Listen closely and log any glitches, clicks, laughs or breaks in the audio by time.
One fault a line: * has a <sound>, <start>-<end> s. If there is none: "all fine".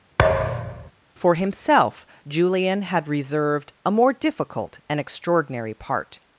* has a thud, 0.2-0.9 s